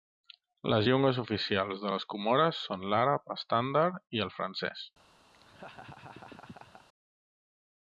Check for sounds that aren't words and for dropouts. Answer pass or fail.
fail